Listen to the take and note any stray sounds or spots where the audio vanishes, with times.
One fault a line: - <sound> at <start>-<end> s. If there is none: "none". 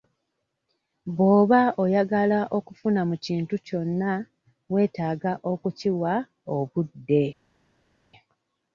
none